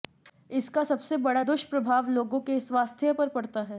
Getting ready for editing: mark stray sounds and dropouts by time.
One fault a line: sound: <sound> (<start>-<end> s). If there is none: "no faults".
no faults